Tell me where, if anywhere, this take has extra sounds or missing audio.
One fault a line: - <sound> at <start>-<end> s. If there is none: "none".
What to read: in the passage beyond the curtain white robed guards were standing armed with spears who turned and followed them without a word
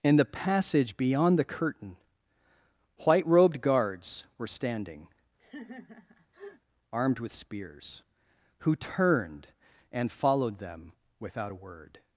- laugh at 5.4-6.6 s